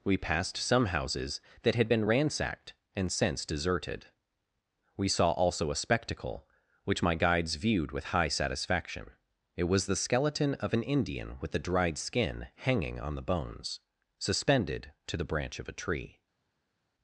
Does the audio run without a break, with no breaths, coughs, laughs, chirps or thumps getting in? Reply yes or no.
yes